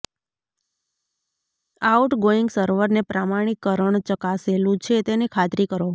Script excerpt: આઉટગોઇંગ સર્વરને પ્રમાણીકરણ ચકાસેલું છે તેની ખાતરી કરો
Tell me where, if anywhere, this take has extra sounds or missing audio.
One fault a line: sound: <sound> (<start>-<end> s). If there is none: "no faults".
no faults